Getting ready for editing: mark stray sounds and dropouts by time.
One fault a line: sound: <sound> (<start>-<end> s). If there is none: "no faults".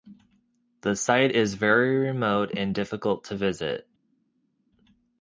no faults